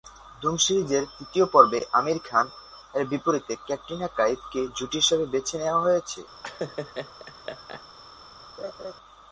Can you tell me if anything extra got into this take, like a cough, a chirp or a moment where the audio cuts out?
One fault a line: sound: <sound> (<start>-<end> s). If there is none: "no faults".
sound: laugh (6.4-7.8 s)
sound: laugh (8.6-8.9 s)